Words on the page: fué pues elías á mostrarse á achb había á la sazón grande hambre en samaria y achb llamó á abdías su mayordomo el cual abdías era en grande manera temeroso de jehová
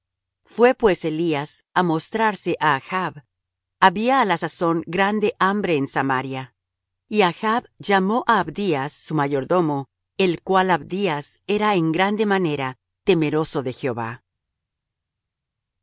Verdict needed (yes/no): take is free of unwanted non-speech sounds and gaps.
yes